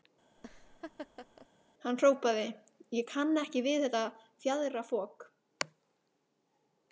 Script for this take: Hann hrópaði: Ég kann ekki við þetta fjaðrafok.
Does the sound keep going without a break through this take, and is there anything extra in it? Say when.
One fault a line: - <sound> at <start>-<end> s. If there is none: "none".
- laugh at 0.4-1.5 s